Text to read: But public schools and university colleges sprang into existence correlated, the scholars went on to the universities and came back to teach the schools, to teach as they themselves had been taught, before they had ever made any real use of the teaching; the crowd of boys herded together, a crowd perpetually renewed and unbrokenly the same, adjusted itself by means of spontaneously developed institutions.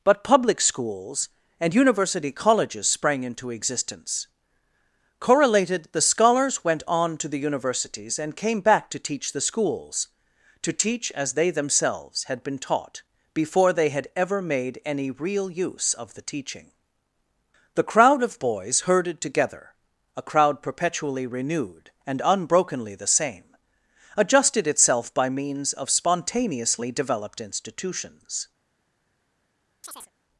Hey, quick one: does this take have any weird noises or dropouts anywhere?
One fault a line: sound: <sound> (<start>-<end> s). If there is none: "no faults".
sound: chirp (29.8-30.1 s)